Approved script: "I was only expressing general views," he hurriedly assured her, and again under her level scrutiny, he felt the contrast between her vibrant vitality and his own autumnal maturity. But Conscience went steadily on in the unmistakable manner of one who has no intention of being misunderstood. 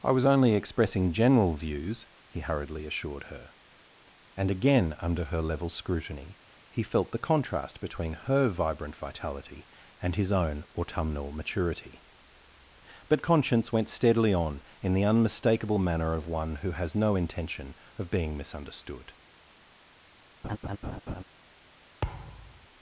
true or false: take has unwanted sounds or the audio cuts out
true